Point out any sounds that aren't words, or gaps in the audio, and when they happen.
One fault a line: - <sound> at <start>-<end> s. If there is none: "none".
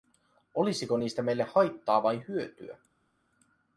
none